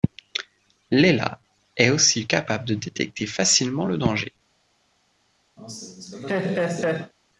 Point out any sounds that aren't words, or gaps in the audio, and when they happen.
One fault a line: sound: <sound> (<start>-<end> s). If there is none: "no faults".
sound: laugh (5.6-7.1 s)